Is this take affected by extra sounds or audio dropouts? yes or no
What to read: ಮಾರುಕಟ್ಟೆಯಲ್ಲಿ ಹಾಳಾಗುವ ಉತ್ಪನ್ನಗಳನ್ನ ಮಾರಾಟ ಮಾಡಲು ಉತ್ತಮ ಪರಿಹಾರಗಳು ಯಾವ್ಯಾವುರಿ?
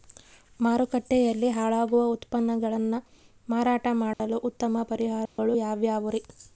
yes